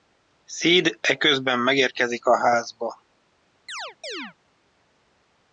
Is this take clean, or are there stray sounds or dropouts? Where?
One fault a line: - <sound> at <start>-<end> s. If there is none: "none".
- chirp at 3.7-4.3 s